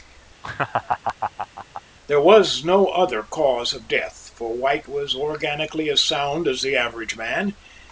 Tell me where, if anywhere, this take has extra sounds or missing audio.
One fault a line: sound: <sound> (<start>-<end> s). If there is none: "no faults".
sound: laugh (0.4-1.8 s)